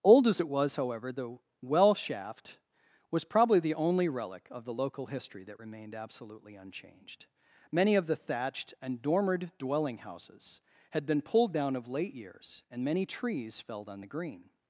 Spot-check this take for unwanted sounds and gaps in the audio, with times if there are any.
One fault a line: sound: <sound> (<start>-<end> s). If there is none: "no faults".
no faults